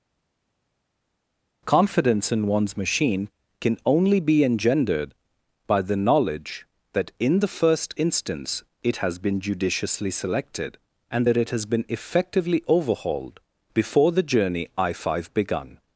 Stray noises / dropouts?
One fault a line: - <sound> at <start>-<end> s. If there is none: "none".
none